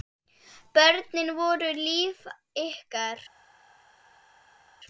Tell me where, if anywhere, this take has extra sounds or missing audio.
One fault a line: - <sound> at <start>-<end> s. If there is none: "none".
none